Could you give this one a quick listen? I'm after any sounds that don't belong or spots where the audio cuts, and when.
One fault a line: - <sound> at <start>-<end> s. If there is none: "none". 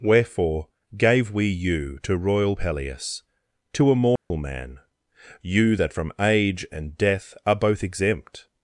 - dropout at 4.2-4.3 s